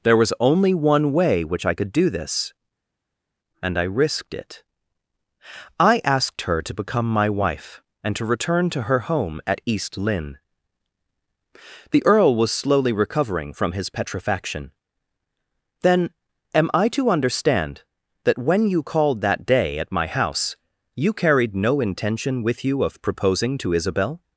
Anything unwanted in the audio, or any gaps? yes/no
no